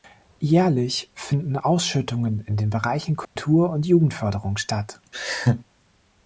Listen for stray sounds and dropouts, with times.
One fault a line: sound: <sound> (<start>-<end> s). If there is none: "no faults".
sound: dropout (3.2-3.4 s)
sound: laugh (5.1-5.6 s)